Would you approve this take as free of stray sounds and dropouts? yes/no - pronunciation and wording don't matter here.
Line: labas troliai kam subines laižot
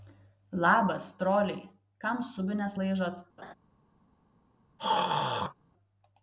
no